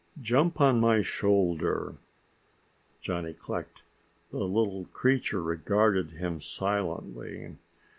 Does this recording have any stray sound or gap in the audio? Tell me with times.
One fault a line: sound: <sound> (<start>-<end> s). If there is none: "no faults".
no faults